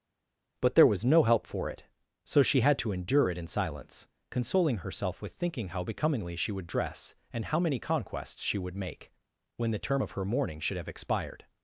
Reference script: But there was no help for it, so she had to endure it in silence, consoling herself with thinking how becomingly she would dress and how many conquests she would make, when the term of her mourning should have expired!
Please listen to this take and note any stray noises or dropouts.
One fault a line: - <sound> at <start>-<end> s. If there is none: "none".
none